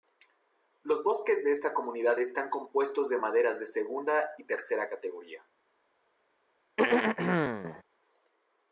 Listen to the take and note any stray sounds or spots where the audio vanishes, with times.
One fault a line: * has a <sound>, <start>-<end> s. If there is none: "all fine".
* has a throat clearing, 6.8-7.8 s